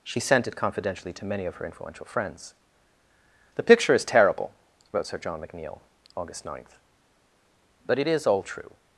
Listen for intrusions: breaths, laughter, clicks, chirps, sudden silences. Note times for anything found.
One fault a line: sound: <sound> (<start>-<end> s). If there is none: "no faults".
no faults